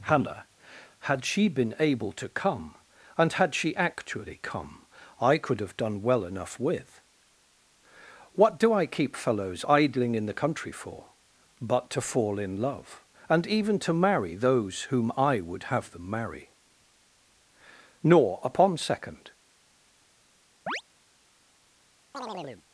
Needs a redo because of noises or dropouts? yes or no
yes